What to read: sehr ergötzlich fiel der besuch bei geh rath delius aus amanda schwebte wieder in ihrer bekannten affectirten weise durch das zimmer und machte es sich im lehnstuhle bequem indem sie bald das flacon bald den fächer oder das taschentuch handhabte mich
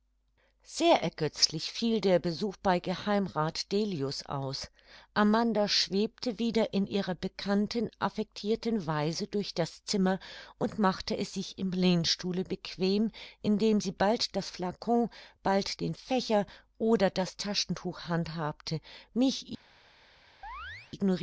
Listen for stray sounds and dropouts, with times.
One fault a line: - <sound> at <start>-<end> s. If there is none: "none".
- chirp at 20.4-20.9 s